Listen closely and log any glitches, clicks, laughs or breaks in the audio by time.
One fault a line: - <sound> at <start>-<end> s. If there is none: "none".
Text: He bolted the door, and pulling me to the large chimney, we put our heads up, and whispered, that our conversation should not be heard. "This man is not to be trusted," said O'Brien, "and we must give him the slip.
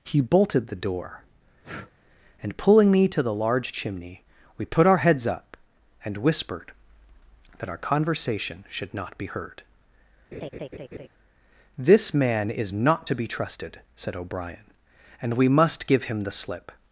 - breath at 1.6-1.9 s
- laugh at 10.3-11.1 s